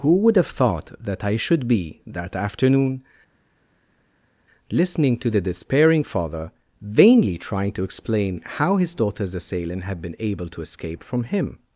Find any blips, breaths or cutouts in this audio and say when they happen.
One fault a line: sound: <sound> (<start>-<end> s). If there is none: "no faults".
no faults